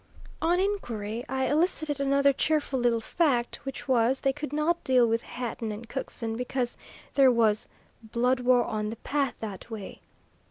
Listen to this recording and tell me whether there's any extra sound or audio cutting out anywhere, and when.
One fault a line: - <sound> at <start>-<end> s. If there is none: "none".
none